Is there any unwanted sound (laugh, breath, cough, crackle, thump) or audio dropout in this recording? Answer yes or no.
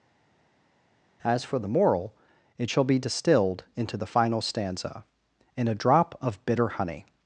no